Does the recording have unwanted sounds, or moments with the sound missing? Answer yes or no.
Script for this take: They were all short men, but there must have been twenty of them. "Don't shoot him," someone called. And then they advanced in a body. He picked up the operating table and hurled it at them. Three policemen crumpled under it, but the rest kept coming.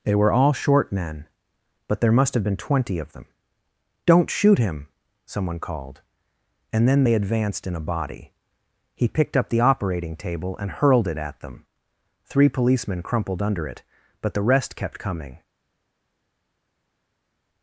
no